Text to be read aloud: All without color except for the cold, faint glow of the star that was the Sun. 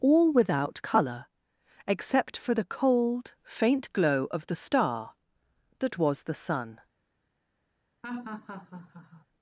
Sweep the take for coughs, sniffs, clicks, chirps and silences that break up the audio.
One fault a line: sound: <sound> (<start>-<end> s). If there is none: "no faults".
sound: laugh (8.0-9.3 s)